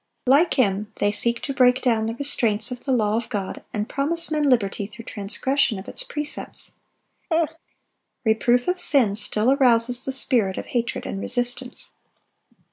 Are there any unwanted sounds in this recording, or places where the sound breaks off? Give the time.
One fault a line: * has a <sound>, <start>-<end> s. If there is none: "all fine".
* has a laugh, 7.3-7.6 s